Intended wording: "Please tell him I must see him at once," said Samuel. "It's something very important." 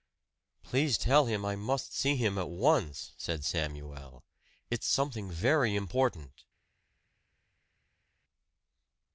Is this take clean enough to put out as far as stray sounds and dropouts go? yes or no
yes